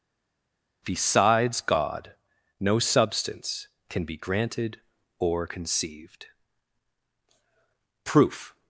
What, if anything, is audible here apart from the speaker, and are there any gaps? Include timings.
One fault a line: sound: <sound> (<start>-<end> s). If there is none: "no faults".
no faults